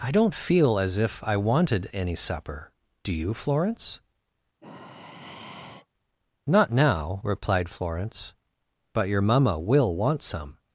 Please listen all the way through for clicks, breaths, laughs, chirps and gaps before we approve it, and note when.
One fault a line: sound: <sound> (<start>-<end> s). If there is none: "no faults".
sound: sigh (4.6-5.9 s)